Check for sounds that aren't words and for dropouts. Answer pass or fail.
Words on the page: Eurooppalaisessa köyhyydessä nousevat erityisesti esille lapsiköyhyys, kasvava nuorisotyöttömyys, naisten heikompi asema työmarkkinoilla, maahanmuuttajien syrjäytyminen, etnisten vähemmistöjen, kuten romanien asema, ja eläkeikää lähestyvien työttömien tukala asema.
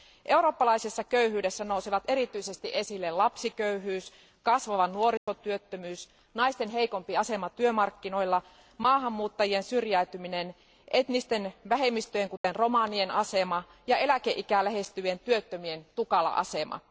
fail